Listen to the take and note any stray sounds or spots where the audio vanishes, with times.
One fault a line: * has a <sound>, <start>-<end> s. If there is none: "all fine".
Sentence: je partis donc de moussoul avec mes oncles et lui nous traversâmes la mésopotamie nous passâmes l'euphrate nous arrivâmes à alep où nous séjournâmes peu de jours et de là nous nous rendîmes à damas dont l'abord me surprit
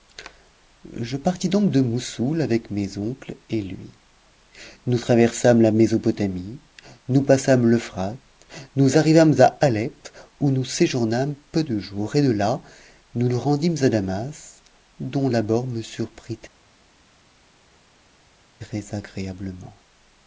all fine